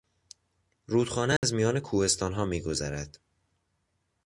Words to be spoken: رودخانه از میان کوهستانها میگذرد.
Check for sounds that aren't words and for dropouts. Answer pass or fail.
fail